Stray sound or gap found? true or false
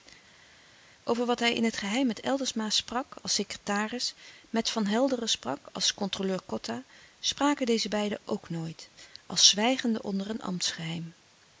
false